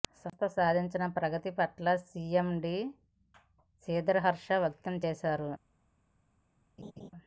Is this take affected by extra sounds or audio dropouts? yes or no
yes